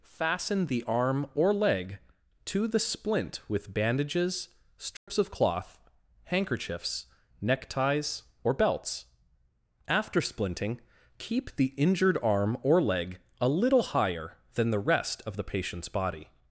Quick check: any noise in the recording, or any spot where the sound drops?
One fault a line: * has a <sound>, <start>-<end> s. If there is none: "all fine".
* has a dropout, 5.0-5.1 s